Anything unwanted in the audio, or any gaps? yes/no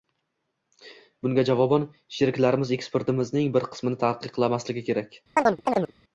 yes